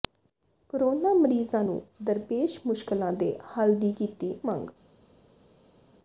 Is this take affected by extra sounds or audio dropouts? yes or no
no